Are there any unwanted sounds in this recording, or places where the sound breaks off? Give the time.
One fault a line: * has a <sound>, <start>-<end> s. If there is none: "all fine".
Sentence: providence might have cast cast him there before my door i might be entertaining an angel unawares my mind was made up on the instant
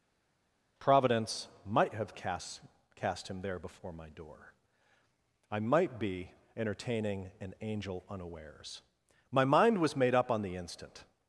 all fine